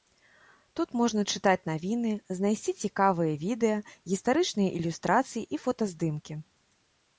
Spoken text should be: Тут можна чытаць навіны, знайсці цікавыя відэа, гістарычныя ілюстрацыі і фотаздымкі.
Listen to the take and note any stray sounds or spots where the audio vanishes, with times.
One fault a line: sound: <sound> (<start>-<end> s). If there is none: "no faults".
no faults